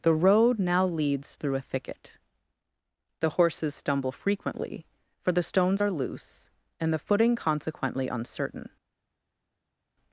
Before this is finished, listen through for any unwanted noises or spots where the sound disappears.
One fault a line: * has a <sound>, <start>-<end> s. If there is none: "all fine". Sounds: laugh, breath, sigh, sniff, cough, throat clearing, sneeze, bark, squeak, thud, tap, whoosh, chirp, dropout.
all fine